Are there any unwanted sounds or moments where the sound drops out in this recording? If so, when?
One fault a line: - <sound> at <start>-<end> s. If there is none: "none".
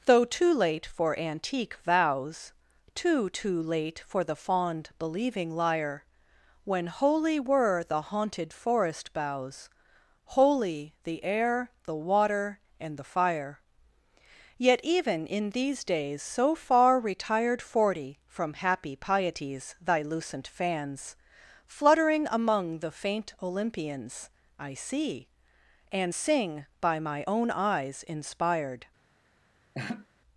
- laugh at 29.7-30.1 s